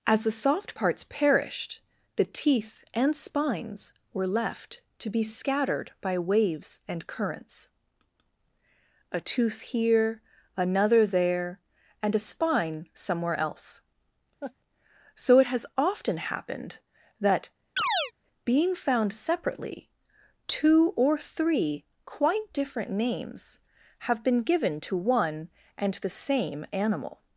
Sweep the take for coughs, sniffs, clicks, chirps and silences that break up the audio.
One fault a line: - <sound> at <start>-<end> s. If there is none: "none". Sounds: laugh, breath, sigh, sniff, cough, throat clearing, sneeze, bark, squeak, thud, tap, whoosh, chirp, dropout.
- laugh at 14.4-14.5 s
- chirp at 17.8-18.1 s